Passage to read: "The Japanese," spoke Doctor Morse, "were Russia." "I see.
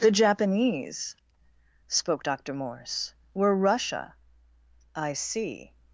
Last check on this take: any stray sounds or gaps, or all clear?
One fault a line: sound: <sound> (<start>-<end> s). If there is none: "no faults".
no faults